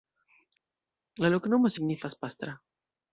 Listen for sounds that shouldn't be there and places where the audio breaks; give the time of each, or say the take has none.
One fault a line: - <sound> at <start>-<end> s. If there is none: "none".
none